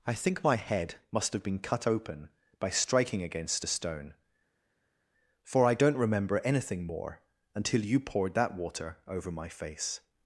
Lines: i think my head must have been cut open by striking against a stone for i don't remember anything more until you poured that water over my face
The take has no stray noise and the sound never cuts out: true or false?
true